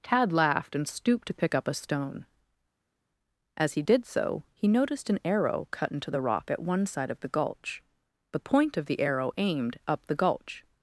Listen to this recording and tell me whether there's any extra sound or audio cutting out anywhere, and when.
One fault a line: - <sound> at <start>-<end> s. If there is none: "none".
none